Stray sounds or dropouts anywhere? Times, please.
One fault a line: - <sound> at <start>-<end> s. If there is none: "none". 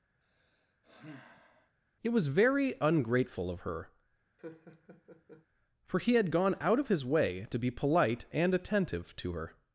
- sigh at 0.2-1.8 s
- laugh at 4.4-5.5 s